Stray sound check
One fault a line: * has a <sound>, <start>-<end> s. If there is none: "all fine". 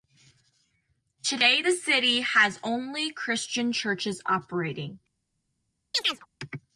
* has a chirp, 5.9-6.3 s